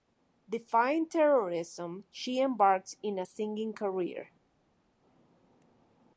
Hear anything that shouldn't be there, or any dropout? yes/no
no